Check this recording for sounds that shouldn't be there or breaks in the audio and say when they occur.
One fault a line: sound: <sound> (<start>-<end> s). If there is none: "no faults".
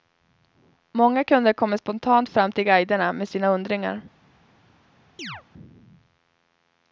sound: chirp (5.2-5.4 s)